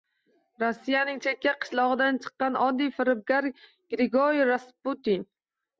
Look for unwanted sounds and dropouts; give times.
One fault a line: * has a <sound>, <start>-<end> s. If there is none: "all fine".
all fine